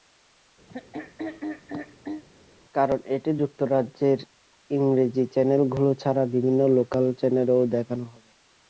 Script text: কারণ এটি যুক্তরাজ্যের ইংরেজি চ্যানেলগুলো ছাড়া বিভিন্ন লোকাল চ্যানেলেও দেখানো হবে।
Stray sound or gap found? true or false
true